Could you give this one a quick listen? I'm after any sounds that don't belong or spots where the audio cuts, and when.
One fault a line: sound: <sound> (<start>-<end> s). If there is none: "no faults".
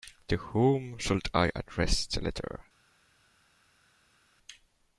no faults